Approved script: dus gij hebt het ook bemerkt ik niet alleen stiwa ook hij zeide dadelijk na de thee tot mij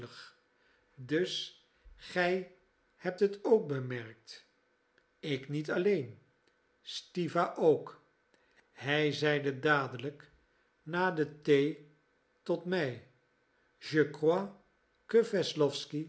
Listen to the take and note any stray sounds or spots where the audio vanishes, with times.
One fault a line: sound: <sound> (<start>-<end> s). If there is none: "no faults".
no faults